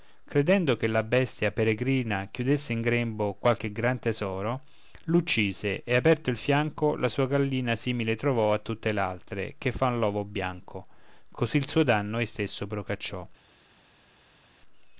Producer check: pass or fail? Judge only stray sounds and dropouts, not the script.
pass